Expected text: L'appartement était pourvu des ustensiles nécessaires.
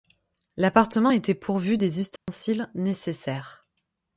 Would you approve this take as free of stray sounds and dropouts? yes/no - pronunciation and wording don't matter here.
no